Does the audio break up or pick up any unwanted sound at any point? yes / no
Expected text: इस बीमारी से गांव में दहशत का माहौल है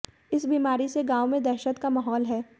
no